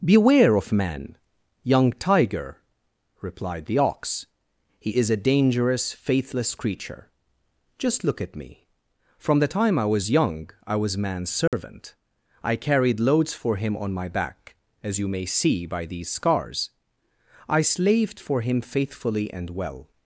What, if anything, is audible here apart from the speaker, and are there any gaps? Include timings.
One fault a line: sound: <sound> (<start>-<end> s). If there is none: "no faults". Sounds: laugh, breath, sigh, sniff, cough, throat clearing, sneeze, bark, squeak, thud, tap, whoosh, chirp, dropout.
sound: dropout (11.5-11.5 s)